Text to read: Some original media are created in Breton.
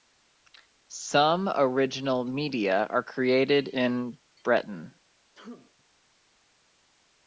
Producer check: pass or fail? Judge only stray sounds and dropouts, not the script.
fail